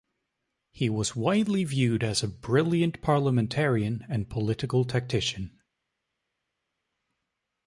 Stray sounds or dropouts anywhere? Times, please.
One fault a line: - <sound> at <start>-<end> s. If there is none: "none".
none